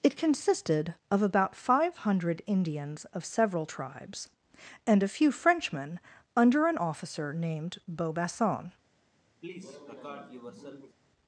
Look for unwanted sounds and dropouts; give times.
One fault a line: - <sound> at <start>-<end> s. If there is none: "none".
- cough at 9.4-11.0 s